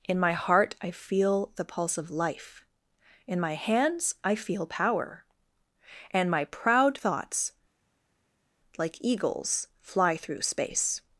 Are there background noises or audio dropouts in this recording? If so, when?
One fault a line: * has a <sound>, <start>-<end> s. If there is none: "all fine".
all fine